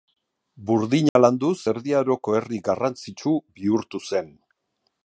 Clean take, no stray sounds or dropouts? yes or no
no